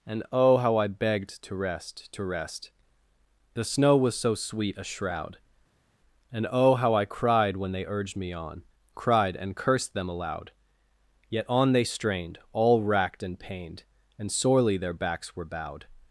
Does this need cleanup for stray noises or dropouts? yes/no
no